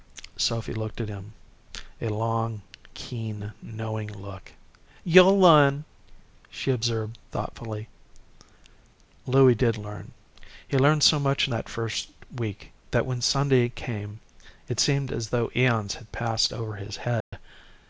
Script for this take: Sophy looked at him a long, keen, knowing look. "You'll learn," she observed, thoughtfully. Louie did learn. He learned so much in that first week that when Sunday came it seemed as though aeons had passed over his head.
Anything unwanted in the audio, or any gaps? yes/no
yes